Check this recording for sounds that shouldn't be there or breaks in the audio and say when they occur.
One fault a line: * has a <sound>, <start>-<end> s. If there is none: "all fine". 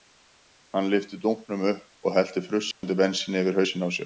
* has a dropout, 2.7-2.8 s